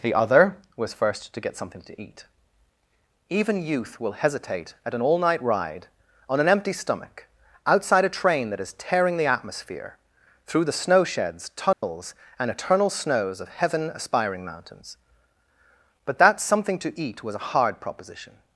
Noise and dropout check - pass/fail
fail